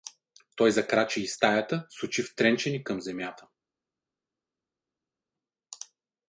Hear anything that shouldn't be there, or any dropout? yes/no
no